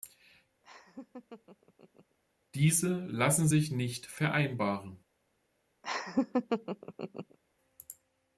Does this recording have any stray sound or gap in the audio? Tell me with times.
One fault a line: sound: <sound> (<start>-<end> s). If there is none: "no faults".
sound: laugh (0.6-2.2 s)
sound: laugh (5.8-7.4 s)